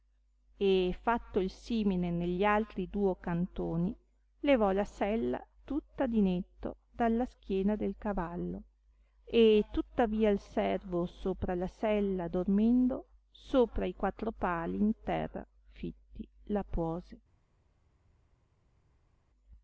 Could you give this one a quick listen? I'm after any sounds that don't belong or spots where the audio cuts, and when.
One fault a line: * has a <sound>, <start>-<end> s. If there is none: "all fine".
all fine